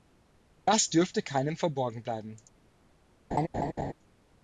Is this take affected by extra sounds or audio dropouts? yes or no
yes